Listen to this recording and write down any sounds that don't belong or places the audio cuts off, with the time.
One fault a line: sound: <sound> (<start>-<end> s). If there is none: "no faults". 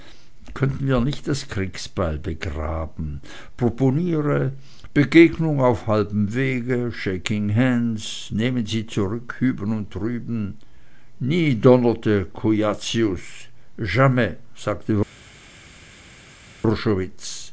no faults